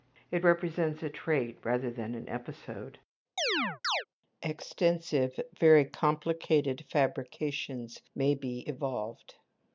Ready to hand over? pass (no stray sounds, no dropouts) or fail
fail